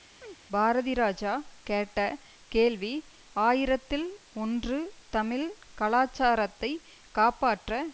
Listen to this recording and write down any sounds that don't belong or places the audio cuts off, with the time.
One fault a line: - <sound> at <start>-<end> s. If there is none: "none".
- chirp at 0.2-0.4 s